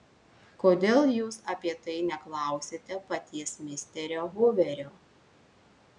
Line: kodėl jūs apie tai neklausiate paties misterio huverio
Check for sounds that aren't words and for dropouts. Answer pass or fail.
pass